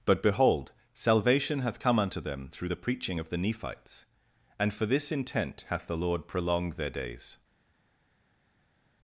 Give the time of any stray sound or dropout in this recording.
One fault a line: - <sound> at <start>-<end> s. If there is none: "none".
none